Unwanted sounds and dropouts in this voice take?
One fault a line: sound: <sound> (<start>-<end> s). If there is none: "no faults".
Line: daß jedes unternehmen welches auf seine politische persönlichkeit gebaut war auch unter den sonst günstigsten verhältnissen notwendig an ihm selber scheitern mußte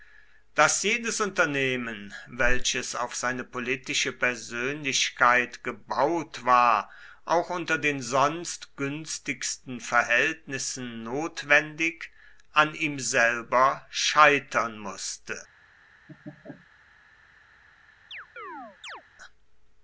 sound: laugh (16.1-16.7 s)
sound: chirp (18.1-19.0 s)